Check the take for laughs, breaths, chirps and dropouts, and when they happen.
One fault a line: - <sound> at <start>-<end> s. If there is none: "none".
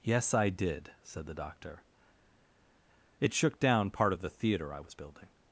none